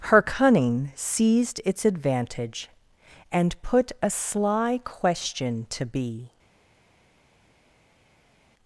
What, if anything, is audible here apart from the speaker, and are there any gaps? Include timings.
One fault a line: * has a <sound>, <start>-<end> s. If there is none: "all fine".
all fine